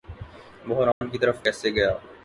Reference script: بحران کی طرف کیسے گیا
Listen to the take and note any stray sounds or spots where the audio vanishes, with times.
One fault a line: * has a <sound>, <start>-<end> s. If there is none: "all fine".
* has a dropout, 0.9-1.0 s